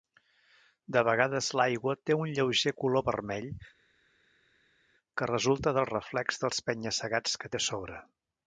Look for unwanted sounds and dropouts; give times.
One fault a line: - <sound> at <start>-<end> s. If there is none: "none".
none